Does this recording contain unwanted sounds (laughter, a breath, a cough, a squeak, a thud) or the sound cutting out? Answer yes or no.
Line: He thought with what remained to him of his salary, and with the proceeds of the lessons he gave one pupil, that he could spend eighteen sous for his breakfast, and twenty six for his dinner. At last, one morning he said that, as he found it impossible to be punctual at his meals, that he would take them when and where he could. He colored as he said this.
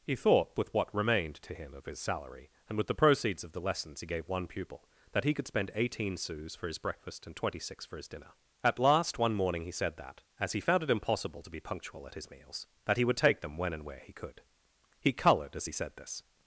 no